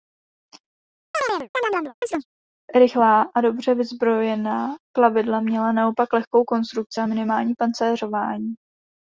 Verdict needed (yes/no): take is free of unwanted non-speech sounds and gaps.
no